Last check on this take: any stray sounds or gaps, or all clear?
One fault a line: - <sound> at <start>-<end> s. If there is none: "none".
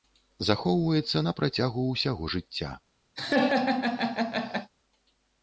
- laugh at 3.2-4.7 s